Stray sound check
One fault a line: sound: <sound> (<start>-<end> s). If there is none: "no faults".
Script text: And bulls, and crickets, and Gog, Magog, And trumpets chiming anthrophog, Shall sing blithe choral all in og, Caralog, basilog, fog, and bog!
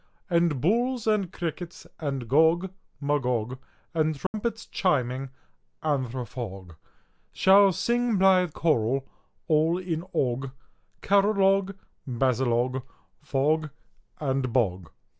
sound: dropout (4.3-4.3 s)